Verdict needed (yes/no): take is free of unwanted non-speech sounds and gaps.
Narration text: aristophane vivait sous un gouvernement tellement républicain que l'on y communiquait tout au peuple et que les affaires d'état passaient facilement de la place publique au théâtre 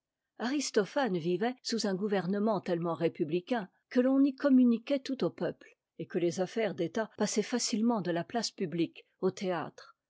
yes